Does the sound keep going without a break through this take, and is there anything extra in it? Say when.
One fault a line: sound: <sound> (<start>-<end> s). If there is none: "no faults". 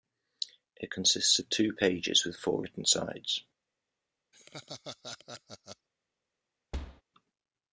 sound: laugh (4.3-5.9 s)
sound: thud (6.7-7.0 s)